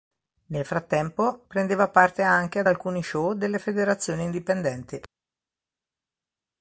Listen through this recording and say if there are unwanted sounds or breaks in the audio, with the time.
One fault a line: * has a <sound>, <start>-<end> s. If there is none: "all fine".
all fine